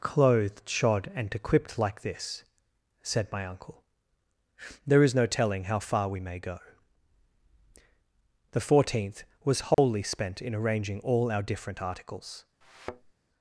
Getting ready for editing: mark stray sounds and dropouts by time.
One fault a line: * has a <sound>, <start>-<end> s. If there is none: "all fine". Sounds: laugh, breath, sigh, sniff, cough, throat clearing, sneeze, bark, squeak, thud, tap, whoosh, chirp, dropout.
* has a dropout, 9.7-9.8 s
* has a thud, 12.6-13.1 s